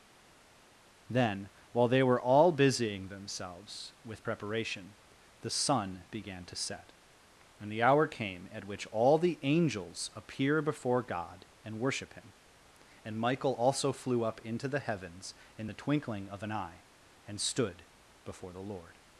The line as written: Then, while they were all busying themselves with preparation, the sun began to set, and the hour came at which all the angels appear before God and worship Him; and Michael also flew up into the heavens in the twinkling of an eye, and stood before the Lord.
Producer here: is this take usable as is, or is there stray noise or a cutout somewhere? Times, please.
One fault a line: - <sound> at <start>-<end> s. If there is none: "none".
none